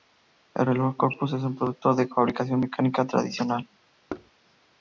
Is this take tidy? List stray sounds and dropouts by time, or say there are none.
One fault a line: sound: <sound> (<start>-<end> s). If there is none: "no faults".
sound: thud (4.1-4.3 s)